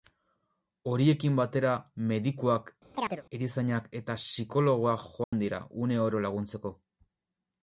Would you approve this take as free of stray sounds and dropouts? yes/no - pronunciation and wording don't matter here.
no